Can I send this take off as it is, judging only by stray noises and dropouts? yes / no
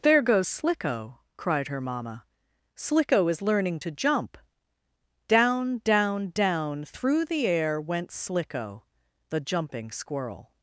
yes